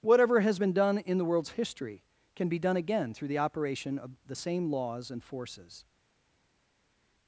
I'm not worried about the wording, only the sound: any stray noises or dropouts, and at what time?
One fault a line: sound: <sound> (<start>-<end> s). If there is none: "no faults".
no faults